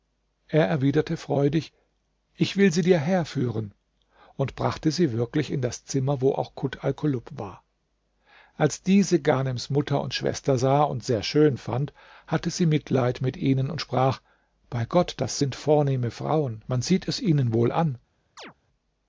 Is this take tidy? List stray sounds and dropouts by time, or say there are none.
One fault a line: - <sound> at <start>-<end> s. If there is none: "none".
- chirp at 18.4-18.5 s